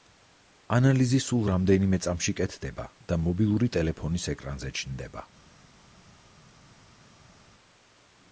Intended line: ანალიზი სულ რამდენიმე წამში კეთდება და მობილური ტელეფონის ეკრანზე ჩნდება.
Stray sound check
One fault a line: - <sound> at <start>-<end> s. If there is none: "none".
none